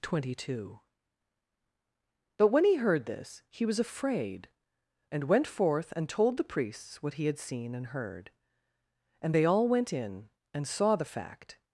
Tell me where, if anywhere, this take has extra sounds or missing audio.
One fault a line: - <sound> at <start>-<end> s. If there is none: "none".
none